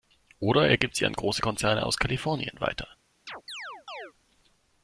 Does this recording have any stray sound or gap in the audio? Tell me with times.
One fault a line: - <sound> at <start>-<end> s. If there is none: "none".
- chirp at 3.3-4.1 s